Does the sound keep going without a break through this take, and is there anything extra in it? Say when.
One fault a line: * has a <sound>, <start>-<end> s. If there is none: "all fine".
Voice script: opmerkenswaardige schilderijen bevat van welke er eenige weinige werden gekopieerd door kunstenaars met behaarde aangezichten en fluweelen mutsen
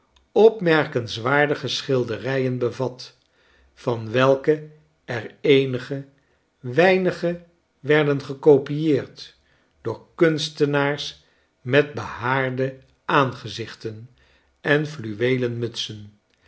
all fine